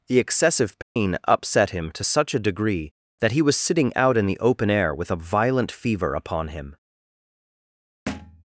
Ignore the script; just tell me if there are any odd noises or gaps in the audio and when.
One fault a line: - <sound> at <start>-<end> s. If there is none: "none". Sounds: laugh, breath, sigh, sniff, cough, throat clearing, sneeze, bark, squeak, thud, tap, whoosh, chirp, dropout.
- dropout at 0.8-1.0 s
- thud at 8.1-8.4 s